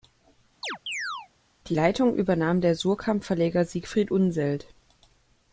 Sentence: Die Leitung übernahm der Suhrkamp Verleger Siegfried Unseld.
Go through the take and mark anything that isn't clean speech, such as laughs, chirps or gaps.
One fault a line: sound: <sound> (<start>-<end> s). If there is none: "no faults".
sound: chirp (0.6-1.3 s)